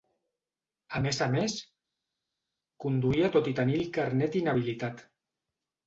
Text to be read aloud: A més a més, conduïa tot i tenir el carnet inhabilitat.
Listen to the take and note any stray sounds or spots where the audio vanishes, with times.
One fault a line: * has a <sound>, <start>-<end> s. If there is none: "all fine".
all fine